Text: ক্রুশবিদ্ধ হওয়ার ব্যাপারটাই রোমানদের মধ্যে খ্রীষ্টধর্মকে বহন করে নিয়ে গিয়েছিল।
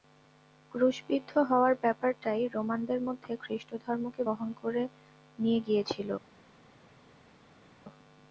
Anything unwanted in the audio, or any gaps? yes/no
no